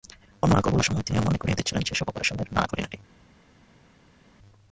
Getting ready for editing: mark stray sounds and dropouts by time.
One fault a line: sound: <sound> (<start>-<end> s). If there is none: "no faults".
no faults